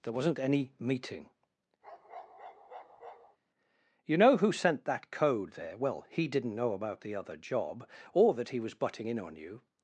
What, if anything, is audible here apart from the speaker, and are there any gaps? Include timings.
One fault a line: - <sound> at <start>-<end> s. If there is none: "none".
- bark at 1.8-3.4 s